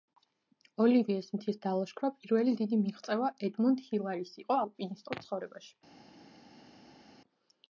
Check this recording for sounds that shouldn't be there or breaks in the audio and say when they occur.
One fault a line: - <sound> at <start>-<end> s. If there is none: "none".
none